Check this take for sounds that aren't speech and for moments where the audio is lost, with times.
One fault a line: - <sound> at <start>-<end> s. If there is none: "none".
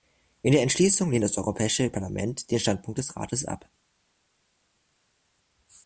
none